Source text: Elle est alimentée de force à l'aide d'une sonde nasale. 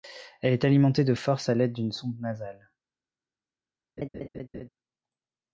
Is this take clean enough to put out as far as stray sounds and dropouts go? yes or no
no